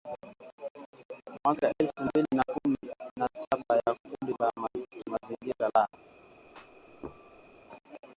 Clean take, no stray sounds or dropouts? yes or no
no